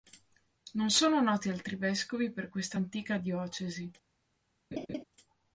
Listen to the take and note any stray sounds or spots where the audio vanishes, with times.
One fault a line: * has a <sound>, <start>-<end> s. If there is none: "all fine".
* has a laugh, 4.7-5.0 s